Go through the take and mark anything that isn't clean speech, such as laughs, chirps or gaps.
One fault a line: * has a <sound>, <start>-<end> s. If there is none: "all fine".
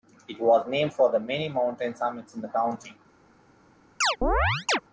* has a chirp, 4.0-4.8 s